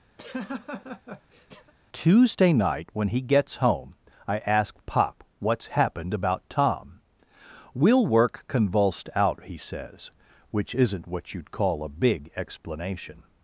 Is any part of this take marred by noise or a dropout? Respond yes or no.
yes